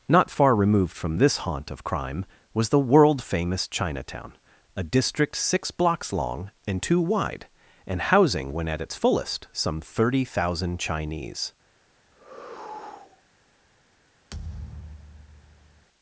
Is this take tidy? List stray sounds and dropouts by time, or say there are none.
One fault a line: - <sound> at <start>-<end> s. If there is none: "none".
- sigh at 12.1-13.2 s
- thud at 14.3-15.9 s